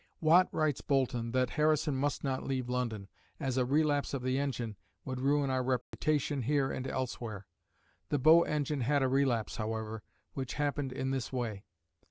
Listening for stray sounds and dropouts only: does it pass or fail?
fail